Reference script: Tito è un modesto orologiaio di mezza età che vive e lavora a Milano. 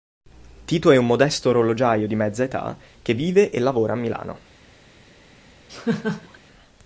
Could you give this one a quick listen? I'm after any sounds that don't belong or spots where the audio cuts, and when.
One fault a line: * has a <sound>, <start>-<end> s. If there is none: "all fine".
* has a laugh, 5.7-6.4 s